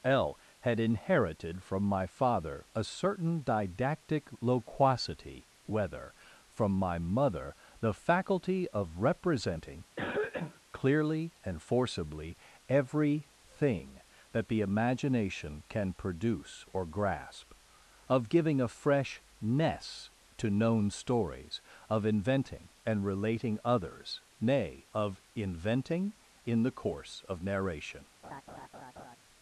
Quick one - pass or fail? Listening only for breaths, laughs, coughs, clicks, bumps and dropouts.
fail